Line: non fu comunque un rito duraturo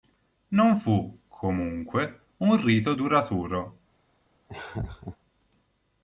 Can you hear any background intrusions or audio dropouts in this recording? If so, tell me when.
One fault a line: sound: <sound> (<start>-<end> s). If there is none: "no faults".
sound: laugh (4.5-5.2 s)